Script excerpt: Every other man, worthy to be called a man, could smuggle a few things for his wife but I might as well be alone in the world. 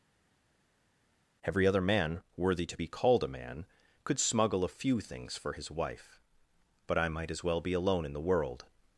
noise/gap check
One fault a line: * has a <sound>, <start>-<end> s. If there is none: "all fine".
all fine